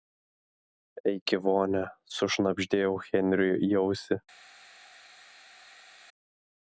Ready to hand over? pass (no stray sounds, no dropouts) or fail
pass